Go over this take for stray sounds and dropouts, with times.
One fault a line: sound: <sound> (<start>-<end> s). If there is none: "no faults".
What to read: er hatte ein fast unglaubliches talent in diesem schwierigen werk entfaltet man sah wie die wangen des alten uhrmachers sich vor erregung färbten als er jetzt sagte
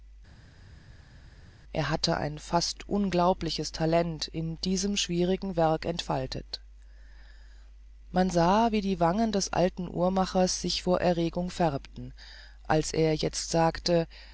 no faults